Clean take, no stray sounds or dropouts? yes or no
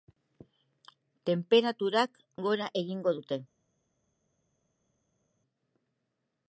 yes